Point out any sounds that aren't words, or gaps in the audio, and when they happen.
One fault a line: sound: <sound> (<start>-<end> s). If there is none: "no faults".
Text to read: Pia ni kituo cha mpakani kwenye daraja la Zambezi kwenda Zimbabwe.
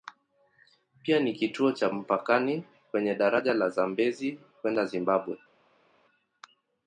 no faults